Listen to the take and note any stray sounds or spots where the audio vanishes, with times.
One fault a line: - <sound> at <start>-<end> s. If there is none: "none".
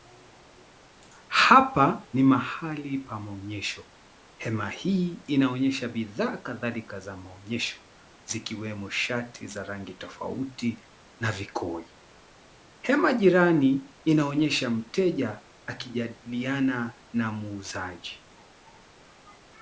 none